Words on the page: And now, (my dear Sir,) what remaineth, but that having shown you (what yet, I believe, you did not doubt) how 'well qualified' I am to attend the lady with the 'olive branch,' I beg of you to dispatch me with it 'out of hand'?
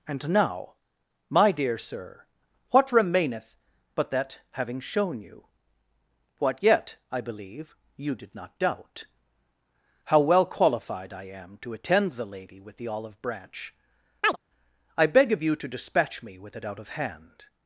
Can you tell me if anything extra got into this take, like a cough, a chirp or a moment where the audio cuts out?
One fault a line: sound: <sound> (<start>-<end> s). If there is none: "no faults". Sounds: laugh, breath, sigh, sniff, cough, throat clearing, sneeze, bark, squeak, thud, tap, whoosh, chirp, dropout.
sound: chirp (14.2-14.4 s)